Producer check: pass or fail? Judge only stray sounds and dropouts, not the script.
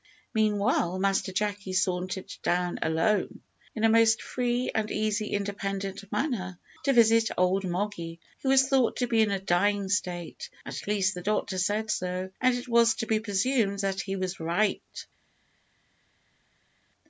pass